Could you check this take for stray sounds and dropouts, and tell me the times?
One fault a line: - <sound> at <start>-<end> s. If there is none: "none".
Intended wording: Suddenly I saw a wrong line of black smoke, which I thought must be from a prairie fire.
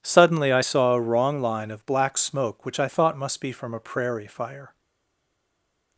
none